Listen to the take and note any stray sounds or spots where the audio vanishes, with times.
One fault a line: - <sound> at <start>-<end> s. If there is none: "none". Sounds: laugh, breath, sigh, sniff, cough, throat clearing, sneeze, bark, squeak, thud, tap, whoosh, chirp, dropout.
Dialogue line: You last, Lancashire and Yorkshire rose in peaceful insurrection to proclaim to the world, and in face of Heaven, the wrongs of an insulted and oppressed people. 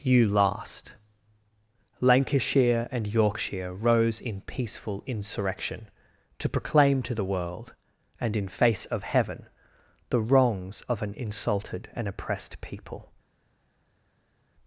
none